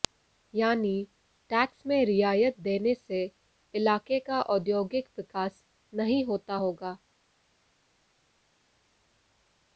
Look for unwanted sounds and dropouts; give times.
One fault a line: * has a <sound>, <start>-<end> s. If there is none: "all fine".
all fine